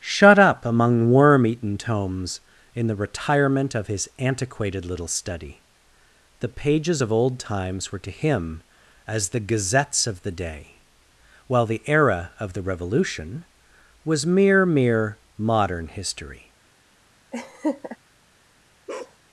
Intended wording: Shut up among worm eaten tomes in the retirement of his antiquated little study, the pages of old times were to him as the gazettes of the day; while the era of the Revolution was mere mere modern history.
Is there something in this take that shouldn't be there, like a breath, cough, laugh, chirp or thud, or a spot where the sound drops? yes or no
yes